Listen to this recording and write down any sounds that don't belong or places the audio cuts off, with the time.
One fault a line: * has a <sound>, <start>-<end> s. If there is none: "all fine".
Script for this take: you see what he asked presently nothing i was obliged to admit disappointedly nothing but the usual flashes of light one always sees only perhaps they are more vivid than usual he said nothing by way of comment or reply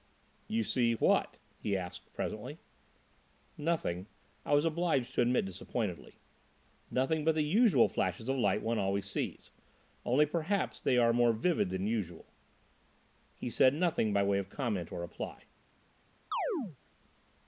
* has a chirp, 16.3-16.8 s